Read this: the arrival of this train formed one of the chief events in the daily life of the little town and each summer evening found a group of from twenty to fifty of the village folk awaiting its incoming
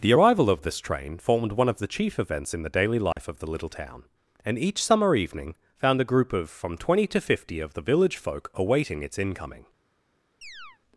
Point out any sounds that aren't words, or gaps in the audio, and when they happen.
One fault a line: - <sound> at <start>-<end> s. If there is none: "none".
- dropout at 3.1-3.2 s
- chirp at 10.4-10.8 s